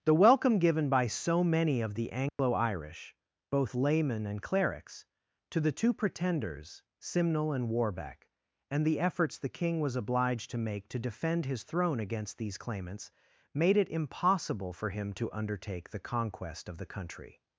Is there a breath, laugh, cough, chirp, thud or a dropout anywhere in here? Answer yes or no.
yes